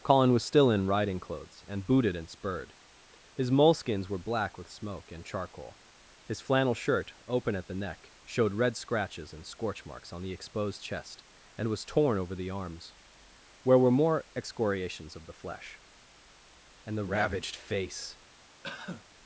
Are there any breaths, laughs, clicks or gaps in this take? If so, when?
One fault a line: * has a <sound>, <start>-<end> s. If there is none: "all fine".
* has a cough, 18.6-19.1 s